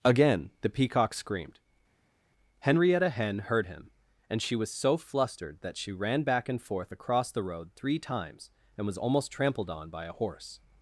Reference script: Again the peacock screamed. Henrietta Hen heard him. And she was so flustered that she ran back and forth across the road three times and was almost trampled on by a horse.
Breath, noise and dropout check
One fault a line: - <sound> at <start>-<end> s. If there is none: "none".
none